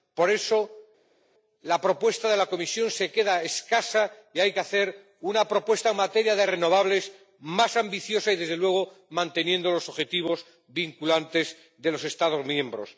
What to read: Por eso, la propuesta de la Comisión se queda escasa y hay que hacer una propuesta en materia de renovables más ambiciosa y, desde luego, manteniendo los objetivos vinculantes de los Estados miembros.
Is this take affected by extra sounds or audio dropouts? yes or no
no